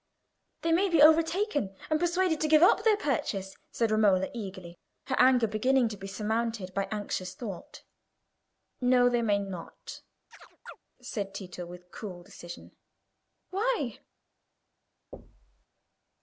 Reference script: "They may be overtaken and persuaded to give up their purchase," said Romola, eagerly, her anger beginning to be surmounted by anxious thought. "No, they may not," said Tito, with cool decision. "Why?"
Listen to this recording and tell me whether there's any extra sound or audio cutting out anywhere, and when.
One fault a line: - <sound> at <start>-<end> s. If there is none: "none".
- chirp at 10.3-10.8 s
- thud at 15.1-15.7 s